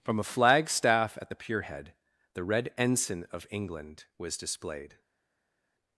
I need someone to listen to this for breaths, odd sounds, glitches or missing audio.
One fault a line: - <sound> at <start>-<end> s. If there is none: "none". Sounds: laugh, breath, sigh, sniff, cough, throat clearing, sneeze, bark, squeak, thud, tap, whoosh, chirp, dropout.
none